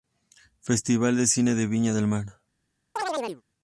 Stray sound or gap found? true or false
true